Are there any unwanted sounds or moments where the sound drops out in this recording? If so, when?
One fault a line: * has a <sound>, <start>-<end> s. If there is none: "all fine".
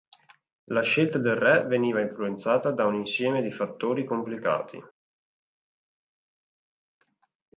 all fine